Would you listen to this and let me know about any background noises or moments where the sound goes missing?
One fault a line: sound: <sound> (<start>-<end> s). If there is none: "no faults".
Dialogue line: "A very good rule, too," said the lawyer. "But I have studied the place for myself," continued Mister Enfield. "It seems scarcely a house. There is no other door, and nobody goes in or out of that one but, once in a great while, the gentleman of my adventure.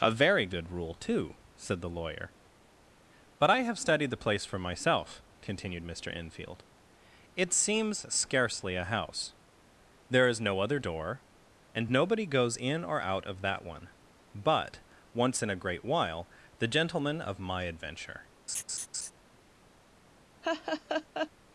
sound: laugh (18.5-19.1 s)
sound: laugh (20.4-21.3 s)